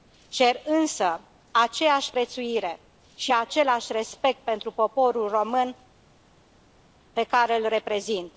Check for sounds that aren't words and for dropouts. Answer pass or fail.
pass